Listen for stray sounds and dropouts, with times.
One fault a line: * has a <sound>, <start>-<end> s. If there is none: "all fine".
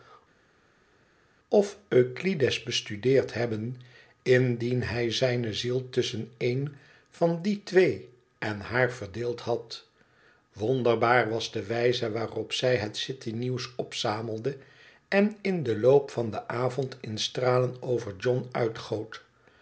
all fine